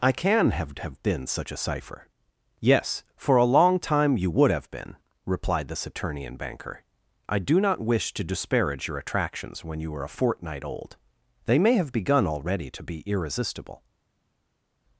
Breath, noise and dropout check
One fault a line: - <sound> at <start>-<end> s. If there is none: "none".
none